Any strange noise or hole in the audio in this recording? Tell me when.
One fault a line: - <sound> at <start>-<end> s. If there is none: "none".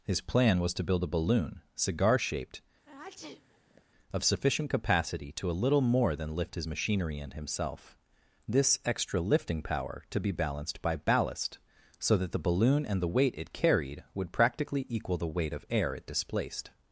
- sneeze at 2.8-3.8 s